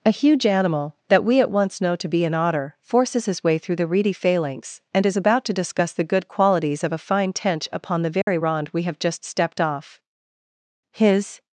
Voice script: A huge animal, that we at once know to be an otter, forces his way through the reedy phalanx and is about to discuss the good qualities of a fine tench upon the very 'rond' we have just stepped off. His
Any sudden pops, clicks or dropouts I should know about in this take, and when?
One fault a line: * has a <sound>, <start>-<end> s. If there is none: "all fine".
* has a dropout, 8.2-8.3 s